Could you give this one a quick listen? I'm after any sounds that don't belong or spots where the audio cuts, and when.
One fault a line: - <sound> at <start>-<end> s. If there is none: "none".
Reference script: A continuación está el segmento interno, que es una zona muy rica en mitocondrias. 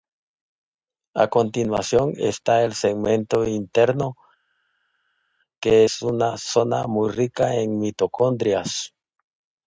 none